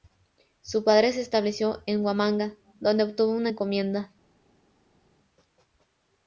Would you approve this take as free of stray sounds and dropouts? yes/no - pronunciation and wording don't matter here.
yes